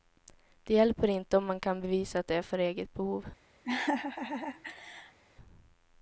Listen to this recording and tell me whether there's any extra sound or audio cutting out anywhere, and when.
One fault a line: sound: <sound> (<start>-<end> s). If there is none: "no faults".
sound: laugh (3.6-5.2 s)